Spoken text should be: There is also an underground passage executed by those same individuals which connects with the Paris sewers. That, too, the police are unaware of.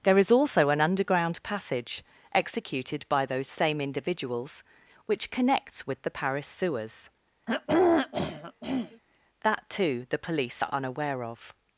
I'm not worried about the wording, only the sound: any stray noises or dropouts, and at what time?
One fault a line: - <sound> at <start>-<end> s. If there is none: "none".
- throat clearing at 7.5-9.0 s